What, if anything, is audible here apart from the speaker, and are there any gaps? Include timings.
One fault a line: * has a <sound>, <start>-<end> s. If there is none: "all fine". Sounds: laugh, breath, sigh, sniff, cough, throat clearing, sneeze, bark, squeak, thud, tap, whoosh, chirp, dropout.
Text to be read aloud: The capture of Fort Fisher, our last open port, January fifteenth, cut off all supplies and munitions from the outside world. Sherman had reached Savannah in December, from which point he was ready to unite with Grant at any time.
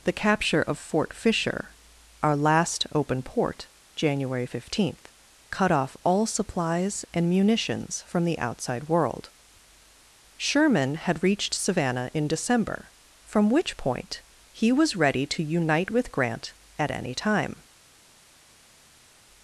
all fine